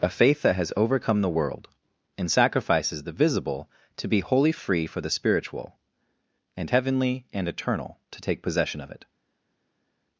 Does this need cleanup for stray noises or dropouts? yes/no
no